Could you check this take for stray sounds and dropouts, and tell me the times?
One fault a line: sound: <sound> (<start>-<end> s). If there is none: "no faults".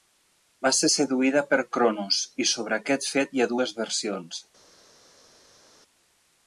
no faults